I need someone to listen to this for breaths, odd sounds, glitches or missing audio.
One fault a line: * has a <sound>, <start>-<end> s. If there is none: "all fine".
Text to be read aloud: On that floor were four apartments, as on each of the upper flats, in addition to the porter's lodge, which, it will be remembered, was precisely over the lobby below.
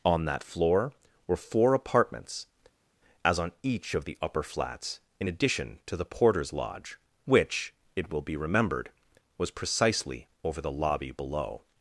all fine